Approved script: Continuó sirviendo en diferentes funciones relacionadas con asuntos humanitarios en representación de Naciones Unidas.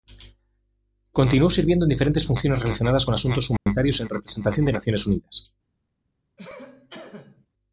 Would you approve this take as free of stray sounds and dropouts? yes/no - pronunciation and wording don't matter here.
no